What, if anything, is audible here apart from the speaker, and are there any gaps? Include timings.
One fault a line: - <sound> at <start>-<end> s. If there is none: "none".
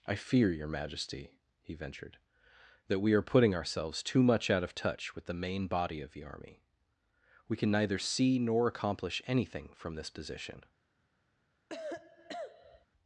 - cough at 11.7-12.9 s